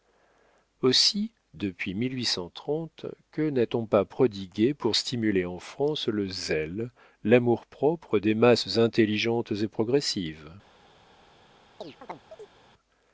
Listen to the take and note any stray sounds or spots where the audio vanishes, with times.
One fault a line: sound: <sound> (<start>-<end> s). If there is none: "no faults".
sound: chirp (11.8-12.5 s)